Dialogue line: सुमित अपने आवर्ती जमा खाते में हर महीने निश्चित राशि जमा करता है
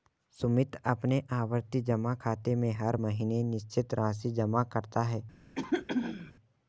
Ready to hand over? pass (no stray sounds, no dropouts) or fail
fail